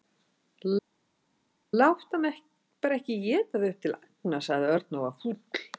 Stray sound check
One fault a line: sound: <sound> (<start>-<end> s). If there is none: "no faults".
no faults